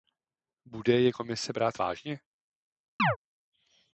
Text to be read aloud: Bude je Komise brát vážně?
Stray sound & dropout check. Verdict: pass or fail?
fail